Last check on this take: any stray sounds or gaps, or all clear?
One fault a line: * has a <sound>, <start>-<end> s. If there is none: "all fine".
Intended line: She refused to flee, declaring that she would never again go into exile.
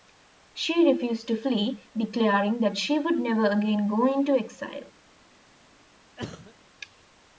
* has a cough, 6.2-6.5 s